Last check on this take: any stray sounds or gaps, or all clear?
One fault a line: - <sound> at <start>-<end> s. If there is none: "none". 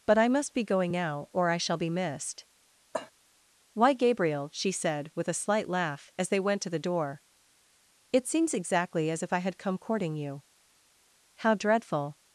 - cough at 2.9-3.1 s